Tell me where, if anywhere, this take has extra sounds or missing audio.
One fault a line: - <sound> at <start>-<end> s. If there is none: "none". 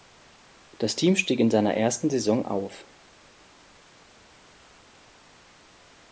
none